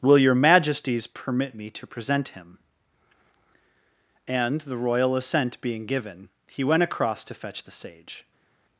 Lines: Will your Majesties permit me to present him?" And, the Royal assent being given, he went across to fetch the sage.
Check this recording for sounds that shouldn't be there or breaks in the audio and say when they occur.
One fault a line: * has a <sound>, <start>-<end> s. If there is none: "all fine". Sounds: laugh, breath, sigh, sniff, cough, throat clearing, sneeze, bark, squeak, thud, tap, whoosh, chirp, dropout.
all fine